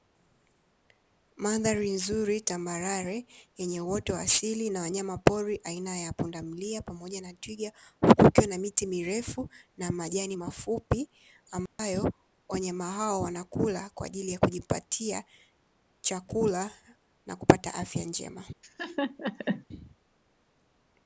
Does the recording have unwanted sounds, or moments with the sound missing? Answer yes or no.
yes